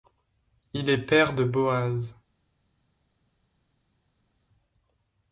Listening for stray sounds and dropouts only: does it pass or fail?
pass